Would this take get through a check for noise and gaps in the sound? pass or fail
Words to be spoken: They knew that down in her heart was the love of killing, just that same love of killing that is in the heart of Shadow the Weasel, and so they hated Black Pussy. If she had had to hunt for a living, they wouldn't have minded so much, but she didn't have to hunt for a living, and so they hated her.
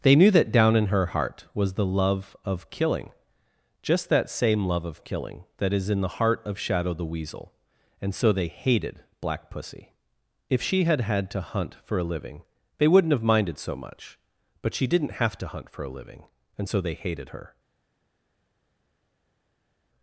pass